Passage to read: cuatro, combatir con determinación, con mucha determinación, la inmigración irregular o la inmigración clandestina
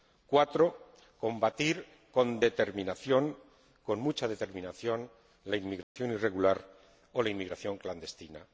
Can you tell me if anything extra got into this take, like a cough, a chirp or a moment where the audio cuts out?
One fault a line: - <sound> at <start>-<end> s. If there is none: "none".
- dropout at 5.8-6.0 s